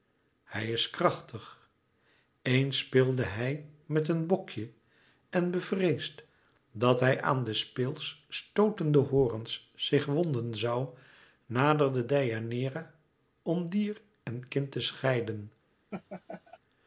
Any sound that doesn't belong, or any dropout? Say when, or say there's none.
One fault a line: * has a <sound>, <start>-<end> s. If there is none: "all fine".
* has a laugh, 15.9-16.6 s